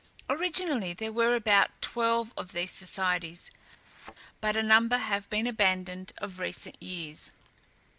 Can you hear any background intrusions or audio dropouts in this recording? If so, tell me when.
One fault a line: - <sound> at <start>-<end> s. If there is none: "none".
- thud at 3.8-4.2 s